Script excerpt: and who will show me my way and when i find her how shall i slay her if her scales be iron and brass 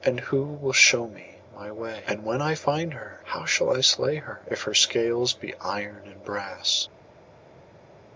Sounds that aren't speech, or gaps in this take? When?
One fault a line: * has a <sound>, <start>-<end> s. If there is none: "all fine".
all fine